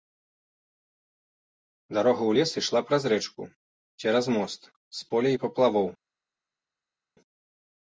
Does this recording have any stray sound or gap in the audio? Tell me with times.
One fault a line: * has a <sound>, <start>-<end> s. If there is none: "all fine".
all fine